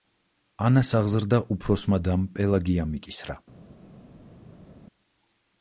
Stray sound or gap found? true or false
false